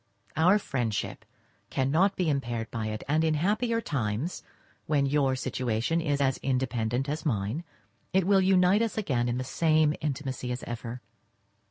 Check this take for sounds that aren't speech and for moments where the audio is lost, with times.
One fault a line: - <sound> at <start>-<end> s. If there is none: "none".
none